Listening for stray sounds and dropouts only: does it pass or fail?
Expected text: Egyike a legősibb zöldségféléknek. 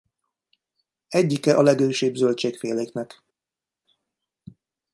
pass